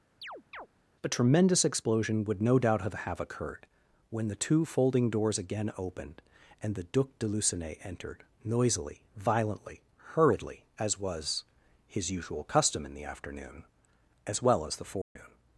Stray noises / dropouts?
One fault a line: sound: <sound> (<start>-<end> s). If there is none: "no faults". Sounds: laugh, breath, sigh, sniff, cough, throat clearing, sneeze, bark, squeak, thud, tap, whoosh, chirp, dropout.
sound: chirp (0.2-0.7 s)
sound: dropout (15.0-15.2 s)